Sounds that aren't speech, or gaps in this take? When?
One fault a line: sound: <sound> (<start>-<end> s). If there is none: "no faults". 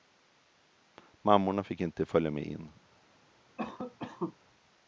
sound: cough (3.6-4.4 s)